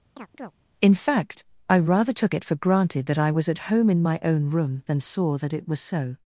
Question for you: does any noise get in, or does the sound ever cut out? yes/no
yes